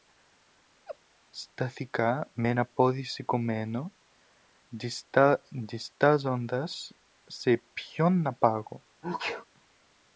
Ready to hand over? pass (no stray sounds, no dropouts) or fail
fail